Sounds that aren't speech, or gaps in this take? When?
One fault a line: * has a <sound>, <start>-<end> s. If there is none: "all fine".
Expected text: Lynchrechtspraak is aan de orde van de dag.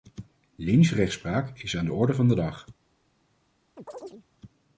* has a chirp, 3.8-4.3 s